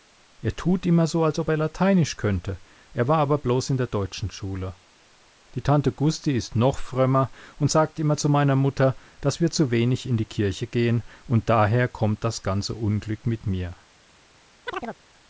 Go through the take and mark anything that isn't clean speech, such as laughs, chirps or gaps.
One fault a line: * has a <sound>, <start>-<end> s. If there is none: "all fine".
* has a chirp, 14.7-15.0 s